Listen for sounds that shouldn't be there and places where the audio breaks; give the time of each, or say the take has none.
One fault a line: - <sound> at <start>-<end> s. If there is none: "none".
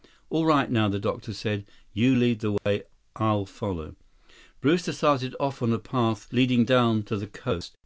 - dropout at 2.6-2.7 s